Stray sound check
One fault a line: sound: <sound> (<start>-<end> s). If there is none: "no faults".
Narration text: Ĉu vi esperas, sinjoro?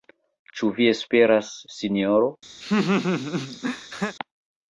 sound: laugh (2.6-4.2 s)